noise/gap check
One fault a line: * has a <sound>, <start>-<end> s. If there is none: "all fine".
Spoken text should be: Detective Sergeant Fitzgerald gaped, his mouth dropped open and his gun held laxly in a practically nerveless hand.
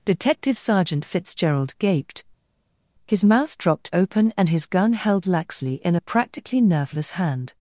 all fine